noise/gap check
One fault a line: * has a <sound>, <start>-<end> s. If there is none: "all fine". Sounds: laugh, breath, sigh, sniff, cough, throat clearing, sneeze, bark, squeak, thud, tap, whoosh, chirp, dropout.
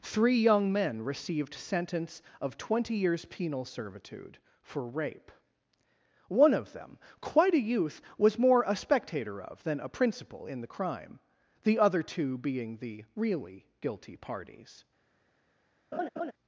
* has a laugh, 15.9-16.3 s